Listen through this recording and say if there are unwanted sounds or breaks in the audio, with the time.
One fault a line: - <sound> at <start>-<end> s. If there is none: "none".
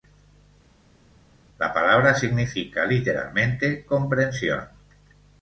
none